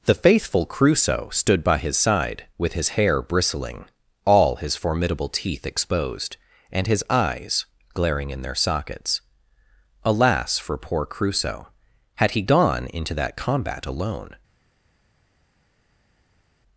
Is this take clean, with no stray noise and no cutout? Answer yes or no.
yes